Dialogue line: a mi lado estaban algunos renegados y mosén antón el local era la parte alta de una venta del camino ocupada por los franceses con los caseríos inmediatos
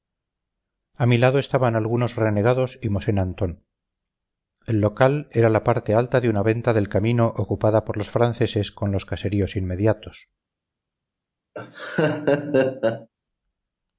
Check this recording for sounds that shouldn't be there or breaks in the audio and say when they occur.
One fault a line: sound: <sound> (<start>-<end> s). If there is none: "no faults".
sound: laugh (11.5-13.1 s)